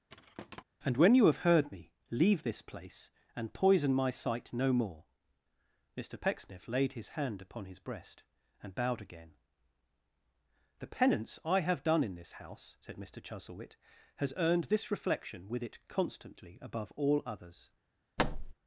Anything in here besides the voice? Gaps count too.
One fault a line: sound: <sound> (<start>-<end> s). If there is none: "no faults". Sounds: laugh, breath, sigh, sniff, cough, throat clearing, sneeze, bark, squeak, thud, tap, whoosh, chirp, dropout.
sound: thud (0.1-0.6 s)
sound: thud (18.2-18.5 s)